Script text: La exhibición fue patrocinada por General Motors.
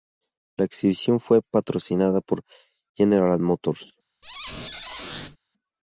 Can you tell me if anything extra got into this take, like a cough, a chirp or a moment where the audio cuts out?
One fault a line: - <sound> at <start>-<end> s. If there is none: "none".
- squeak at 4.2-5.4 s